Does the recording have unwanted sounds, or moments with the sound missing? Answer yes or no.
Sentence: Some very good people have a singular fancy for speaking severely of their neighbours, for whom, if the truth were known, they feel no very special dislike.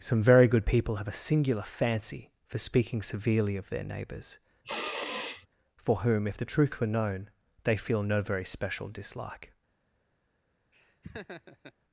yes